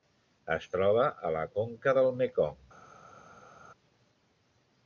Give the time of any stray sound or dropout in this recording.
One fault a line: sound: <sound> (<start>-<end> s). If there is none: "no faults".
no faults